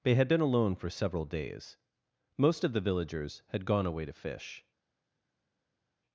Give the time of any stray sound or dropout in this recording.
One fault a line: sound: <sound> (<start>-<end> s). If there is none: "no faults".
no faults